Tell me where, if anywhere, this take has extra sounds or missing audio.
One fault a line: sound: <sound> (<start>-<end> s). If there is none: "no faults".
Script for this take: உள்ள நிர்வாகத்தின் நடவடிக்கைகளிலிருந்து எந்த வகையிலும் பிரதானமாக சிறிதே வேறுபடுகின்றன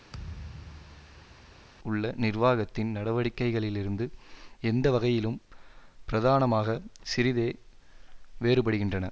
sound: thud (0.1-1.6 s)